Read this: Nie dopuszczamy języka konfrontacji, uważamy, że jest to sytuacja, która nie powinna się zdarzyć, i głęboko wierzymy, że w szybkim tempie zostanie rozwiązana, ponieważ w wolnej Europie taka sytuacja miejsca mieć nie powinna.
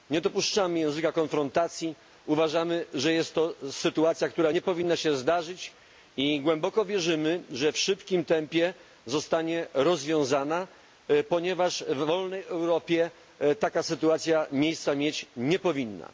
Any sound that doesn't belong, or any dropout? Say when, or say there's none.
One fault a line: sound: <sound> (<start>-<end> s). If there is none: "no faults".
no faults